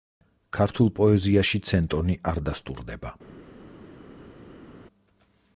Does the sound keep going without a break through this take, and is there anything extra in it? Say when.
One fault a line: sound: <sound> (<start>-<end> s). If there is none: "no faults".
no faults